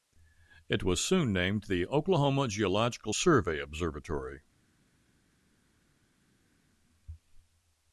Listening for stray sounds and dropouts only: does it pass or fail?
pass